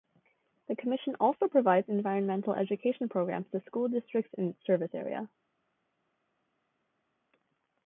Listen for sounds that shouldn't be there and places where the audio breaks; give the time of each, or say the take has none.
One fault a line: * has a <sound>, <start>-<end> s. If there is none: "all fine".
all fine